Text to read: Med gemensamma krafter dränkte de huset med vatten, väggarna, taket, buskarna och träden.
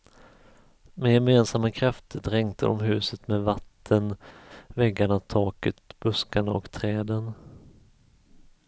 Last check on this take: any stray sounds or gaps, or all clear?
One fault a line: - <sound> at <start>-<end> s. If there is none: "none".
none